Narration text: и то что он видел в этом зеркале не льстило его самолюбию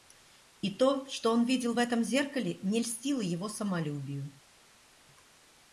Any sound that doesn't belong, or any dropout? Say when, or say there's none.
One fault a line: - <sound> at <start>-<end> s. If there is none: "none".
none